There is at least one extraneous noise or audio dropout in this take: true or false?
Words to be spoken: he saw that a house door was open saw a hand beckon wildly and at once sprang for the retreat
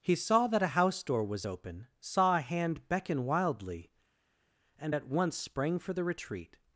false